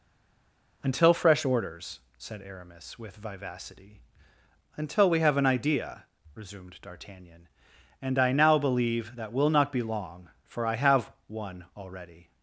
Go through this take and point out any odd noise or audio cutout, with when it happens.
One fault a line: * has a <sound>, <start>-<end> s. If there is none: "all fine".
all fine